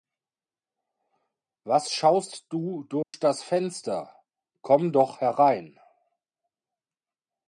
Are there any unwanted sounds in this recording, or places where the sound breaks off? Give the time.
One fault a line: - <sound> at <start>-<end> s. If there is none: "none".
- dropout at 3.0-3.1 s